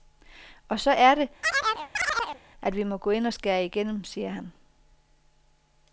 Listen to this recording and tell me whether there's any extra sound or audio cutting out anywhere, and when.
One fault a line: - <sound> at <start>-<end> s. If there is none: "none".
- chirp at 1.4-2.4 s